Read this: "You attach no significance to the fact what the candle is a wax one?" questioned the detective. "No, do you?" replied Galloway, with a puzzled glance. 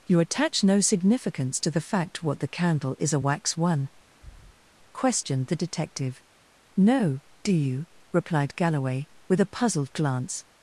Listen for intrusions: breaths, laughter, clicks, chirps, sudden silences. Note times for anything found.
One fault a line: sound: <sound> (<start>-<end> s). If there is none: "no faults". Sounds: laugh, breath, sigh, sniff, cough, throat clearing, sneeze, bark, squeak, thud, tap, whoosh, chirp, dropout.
sound: breath (4.1-4.7 s)